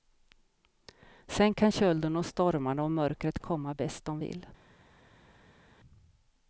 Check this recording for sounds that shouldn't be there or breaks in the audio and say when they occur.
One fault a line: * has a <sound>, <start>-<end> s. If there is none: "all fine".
all fine